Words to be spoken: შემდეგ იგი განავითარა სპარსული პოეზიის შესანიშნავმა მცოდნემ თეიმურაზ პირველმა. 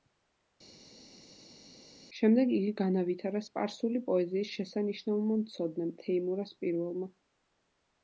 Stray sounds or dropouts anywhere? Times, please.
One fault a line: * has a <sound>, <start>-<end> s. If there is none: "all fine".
all fine